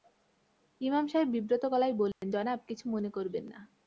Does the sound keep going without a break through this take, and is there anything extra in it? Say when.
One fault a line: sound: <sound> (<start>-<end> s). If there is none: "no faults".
sound: dropout (2.1-2.2 s)